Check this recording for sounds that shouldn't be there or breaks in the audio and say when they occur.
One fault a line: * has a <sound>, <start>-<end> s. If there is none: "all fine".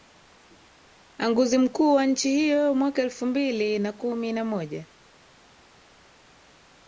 all fine